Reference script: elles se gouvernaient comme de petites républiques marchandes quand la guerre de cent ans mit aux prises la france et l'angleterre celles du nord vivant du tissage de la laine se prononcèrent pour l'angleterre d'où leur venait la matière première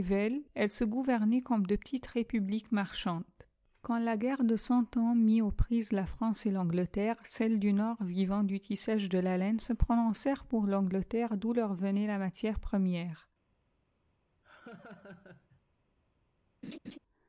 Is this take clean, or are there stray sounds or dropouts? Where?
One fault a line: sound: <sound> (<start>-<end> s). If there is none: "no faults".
sound: laugh (14.4-15.6 s)
sound: laugh (16.6-17.0 s)